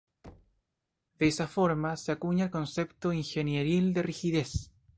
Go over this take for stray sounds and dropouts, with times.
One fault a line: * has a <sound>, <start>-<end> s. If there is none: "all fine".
* has a thud, 0.2-0.6 s